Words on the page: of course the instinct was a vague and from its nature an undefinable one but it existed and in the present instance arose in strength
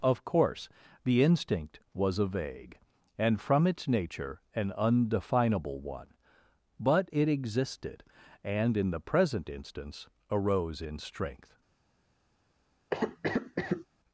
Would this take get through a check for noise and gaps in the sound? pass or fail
fail